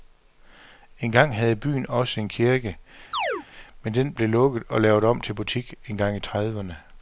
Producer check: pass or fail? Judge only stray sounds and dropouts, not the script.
fail